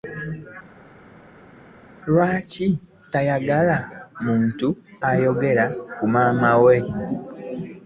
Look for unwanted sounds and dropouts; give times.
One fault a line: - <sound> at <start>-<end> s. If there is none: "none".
none